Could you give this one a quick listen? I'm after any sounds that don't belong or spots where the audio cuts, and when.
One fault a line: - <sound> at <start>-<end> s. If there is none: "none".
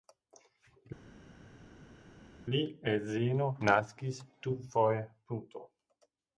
none